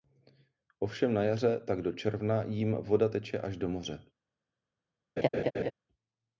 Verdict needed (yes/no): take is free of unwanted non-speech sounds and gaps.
no